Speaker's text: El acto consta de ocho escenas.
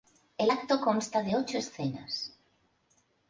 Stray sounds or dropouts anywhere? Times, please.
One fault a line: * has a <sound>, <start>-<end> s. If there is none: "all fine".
all fine